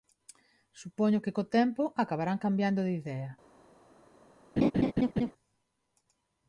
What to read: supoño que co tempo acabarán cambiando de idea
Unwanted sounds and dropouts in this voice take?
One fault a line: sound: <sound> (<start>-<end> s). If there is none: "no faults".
sound: laugh (4.6-5.3 s)